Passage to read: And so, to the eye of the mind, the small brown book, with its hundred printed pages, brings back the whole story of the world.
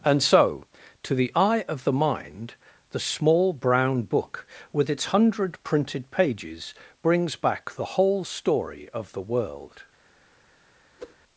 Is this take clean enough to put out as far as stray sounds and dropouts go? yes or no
no